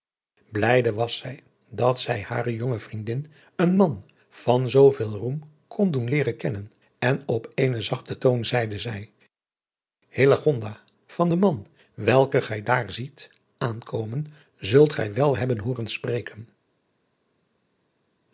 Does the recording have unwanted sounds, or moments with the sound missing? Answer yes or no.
no